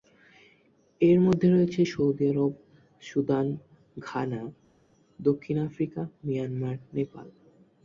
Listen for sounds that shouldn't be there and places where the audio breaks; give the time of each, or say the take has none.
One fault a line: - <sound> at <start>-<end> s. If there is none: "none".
none